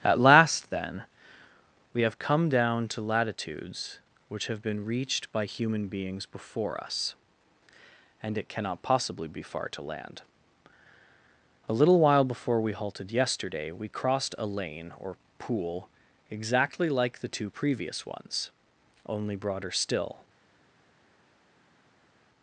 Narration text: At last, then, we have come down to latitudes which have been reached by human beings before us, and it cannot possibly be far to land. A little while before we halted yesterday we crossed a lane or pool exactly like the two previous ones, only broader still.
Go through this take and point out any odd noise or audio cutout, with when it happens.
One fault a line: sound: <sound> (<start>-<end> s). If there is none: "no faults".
no faults